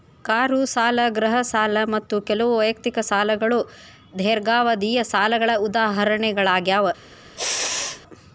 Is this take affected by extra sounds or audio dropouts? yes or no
yes